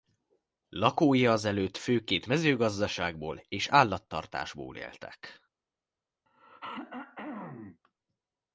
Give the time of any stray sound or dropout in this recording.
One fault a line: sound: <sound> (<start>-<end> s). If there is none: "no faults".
sound: throat clearing (6.3-7.8 s)